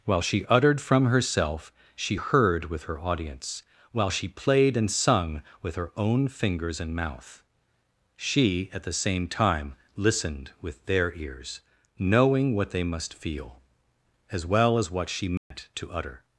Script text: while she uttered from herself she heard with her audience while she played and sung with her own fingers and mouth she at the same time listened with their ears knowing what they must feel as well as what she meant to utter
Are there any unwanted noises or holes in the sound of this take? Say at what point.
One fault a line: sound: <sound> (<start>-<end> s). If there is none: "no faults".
sound: dropout (15.4-15.5 s)